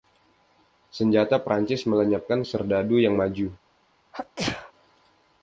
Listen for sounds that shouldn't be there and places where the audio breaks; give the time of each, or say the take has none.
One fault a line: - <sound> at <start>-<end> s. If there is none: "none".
- sneeze at 4.1-4.7 s